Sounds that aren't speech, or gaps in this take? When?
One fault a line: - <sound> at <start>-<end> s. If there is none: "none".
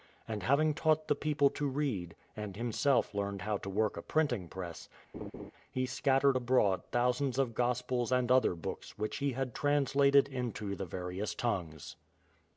- laugh at 5.1-5.5 s